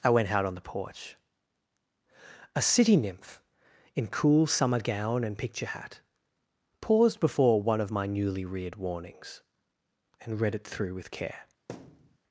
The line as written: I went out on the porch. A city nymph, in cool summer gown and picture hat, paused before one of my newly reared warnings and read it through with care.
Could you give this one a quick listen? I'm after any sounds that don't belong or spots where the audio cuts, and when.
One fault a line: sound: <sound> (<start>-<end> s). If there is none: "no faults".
sound: thud (11.7-12.2 s)